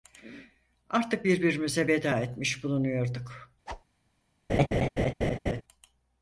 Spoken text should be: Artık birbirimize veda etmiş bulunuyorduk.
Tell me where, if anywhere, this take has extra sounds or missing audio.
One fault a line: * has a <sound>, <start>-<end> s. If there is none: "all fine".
* has a whoosh, 3.7-3.8 s
* has a laugh, 4.5-5.6 s